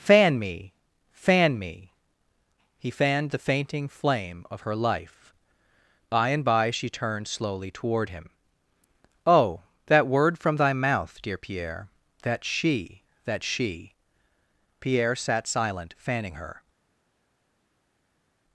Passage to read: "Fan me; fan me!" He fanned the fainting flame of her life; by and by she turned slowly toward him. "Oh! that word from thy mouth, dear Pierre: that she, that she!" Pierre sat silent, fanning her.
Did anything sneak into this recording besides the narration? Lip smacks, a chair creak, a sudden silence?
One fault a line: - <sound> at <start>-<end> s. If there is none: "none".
none